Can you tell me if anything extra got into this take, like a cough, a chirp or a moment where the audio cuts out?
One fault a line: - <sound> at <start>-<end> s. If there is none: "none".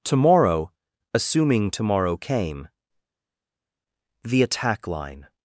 none